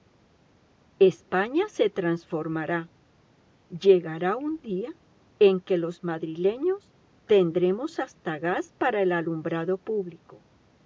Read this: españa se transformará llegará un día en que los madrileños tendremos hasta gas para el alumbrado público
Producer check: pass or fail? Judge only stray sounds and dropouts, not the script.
pass